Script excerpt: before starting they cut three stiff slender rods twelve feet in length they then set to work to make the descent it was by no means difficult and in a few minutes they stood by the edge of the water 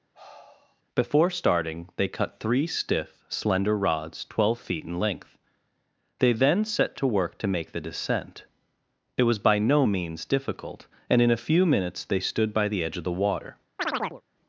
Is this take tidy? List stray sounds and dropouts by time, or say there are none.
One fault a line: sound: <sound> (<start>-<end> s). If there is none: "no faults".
sound: sigh (0.1-0.8 s)
sound: chirp (13.8-14.2 s)